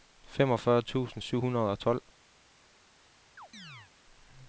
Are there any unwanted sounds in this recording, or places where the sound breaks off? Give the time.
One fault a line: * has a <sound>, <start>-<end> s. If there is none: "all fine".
* has a chirp, 3.4-3.9 s